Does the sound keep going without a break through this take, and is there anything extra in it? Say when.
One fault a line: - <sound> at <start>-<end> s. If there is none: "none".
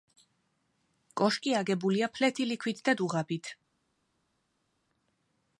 none